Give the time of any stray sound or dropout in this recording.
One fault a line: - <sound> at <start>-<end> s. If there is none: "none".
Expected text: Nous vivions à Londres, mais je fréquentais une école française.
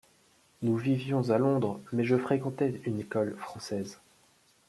none